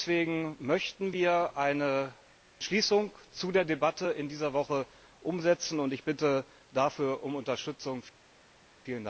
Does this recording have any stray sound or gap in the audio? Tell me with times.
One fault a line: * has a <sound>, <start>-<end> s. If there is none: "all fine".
all fine